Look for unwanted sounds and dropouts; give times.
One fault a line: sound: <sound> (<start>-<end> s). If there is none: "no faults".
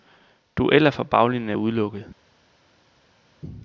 no faults